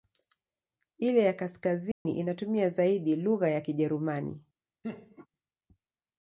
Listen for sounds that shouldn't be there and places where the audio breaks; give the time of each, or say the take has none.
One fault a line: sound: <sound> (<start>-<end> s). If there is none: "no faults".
sound: dropout (1.9-2.1 s)
sound: laugh (4.8-5.3 s)